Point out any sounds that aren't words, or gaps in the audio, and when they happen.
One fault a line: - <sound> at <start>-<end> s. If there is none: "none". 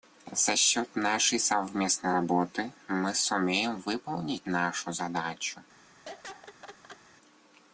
- laugh at 6.1-7.0 s